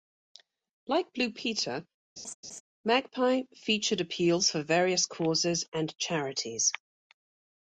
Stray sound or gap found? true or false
true